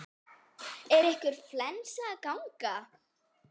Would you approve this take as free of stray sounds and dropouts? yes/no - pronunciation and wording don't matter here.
yes